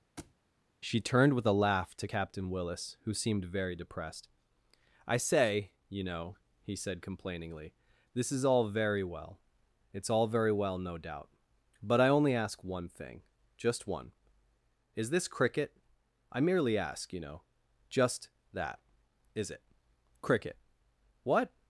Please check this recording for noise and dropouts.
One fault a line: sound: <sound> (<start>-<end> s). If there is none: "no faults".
sound: thud (0.2-0.4 s)